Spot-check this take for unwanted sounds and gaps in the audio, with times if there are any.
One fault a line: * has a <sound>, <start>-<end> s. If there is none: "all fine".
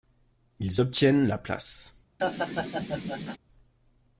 * has a laugh, 2.2-3.4 s